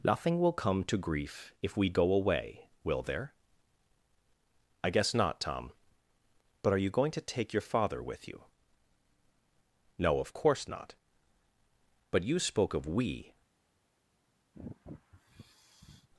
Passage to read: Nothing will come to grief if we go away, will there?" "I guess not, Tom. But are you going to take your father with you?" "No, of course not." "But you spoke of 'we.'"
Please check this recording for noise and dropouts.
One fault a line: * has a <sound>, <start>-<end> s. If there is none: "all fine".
* has a sigh, 14.5-16.1 s